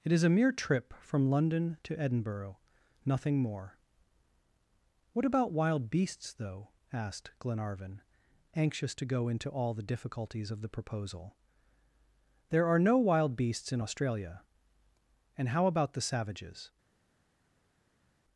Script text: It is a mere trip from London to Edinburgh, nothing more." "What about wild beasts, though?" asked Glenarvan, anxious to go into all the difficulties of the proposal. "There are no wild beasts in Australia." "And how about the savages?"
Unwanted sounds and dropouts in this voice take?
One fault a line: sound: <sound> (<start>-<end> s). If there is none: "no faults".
no faults